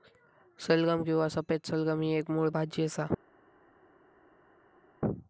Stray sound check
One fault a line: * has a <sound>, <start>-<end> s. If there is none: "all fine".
all fine